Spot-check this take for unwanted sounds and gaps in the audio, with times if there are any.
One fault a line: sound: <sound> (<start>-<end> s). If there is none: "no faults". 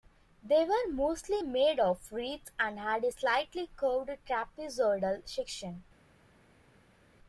no faults